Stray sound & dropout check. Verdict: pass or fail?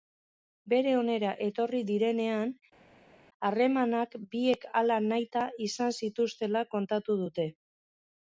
pass